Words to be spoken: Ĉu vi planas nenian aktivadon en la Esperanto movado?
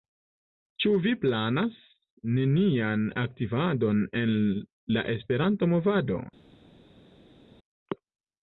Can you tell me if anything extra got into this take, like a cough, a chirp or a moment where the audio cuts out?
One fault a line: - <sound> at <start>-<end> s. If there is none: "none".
none